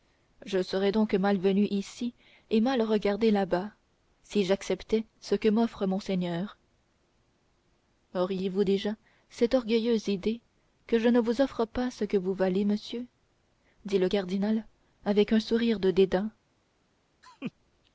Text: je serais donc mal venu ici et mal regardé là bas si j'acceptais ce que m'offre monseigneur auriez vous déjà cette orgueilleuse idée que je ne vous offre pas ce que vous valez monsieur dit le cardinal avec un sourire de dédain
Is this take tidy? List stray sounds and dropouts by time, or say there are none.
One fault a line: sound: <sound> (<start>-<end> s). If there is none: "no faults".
sound: laugh (17.2-17.5 s)